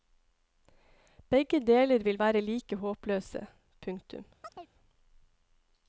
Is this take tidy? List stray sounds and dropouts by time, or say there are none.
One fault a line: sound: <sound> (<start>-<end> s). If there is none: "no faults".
sound: chirp (4.4-4.7 s)